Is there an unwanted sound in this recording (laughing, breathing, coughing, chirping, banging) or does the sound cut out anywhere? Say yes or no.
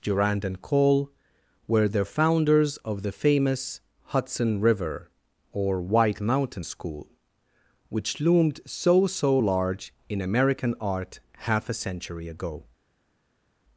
no